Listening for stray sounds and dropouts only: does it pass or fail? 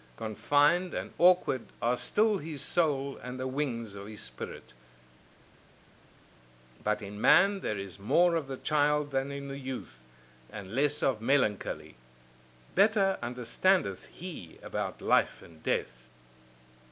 pass